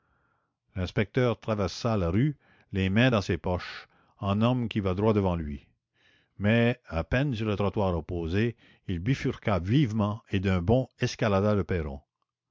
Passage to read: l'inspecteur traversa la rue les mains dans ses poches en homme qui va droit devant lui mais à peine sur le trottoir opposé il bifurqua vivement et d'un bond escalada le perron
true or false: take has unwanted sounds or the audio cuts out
false